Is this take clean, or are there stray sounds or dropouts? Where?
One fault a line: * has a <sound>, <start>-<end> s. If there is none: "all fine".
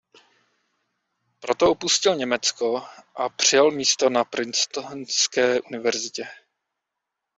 all fine